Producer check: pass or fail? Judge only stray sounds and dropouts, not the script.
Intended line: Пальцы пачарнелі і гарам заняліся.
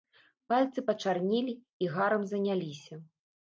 pass